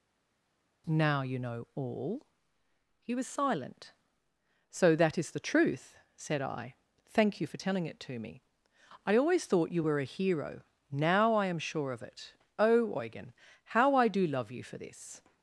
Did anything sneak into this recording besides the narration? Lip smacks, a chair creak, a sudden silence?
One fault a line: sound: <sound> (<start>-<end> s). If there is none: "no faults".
no faults